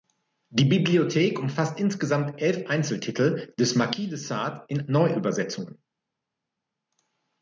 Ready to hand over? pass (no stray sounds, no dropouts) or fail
pass